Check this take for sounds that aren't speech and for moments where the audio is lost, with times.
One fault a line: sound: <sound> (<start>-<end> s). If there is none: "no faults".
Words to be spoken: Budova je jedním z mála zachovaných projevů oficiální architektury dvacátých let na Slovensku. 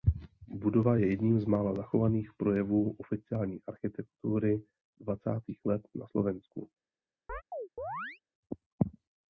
sound: chirp (7.3-8.2 s)